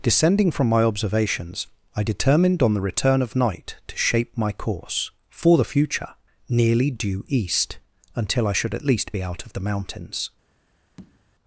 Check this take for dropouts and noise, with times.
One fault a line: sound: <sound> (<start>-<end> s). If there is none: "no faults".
sound: tap (11.0-11.2 s)